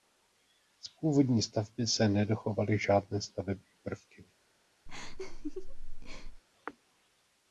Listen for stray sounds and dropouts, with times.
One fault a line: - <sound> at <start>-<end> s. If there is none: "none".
- laugh at 4.9-6.4 s